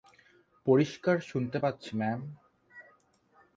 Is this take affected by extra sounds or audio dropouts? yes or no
no